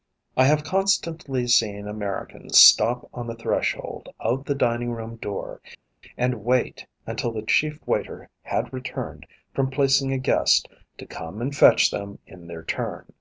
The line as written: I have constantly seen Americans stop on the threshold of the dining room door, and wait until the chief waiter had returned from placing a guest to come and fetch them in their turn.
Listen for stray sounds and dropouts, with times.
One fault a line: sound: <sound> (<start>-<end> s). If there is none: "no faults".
no faults